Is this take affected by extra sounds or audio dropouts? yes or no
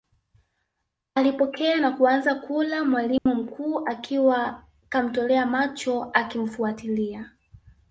yes